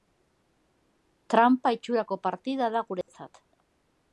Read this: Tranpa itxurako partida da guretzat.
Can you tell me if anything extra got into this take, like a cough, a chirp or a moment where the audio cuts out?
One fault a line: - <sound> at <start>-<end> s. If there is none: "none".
- dropout at 3.0-3.1 s